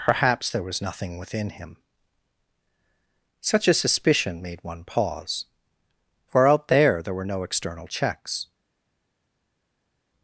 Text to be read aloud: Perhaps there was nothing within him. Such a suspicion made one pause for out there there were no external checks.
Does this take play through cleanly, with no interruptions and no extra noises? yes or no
yes